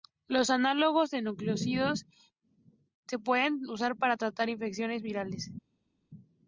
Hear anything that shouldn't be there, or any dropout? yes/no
no